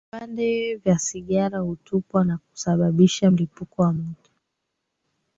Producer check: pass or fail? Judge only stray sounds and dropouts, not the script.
pass